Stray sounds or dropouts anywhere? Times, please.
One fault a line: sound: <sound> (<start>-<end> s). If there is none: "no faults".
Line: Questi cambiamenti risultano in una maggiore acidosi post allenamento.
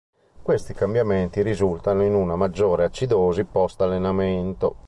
no faults